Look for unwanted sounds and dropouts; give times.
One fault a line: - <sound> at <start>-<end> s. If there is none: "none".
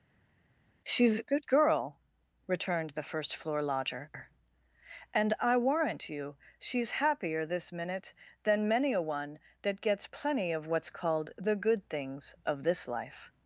none